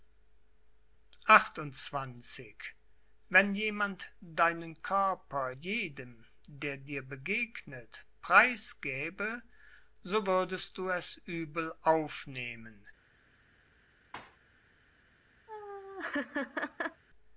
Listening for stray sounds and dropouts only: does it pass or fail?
fail